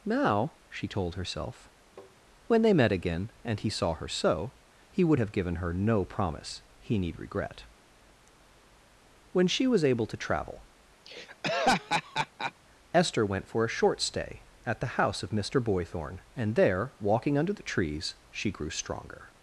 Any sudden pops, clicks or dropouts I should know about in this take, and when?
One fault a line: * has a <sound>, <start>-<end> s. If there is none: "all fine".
* has a tap, 2.0-2.2 s
* has a laugh, 11.0-12.5 s